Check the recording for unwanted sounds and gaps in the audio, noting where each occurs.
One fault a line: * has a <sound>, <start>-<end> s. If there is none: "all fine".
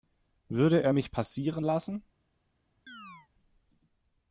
* has a chirp, 2.9-3.3 s